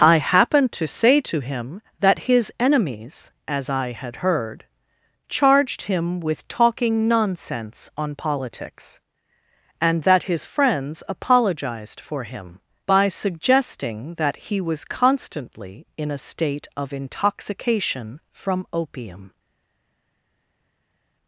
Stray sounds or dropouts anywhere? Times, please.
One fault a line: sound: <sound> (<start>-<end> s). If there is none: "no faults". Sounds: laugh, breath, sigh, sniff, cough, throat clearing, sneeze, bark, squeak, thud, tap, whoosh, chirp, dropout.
no faults